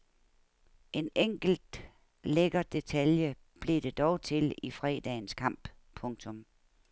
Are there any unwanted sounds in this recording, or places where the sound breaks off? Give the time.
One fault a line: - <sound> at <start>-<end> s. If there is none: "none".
none